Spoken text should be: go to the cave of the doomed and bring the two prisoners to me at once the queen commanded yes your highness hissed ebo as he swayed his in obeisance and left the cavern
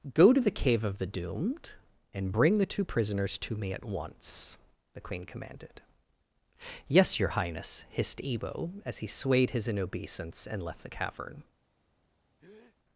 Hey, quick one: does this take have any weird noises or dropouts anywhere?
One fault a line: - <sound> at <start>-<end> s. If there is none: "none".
- breath at 12.4-12.8 s